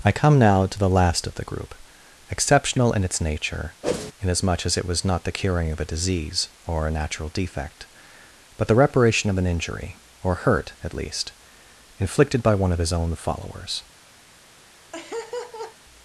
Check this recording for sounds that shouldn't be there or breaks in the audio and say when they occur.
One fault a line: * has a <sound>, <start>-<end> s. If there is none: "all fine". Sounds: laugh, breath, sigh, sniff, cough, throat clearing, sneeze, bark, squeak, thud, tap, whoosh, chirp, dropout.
* has a whoosh, 3.8-4.1 s
* has a laugh, 14.9-15.8 s